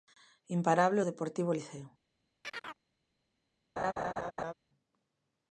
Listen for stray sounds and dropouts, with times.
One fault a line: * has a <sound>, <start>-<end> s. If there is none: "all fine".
* has a chirp, 2.4-2.8 s
* has a laugh, 3.8-4.5 s